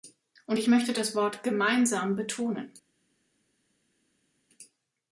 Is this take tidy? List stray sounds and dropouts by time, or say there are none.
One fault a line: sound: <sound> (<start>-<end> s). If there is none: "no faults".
no faults